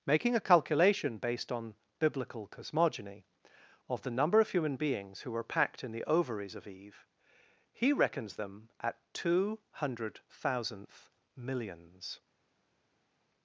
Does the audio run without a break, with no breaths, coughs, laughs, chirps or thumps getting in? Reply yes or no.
yes